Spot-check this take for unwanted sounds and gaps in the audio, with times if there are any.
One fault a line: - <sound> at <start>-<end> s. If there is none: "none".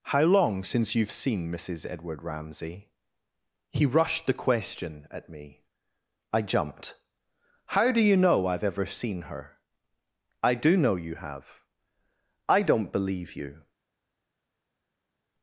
none